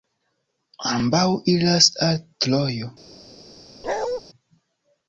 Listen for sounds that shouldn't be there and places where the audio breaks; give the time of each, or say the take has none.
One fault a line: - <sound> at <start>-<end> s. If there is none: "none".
- bark at 3.8-4.2 s